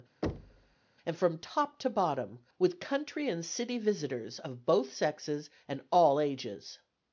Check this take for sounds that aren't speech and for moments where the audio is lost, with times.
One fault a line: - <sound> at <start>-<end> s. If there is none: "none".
- thud at 0.2-0.8 s